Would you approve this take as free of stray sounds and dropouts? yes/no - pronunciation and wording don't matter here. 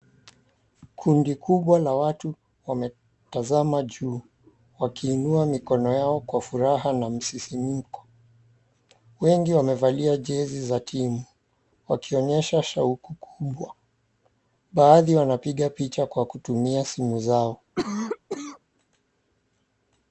no